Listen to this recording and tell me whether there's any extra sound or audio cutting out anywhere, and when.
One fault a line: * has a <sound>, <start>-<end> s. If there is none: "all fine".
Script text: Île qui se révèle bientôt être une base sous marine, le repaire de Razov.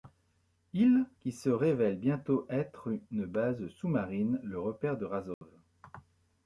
* has a dropout, 5.3-5.4 s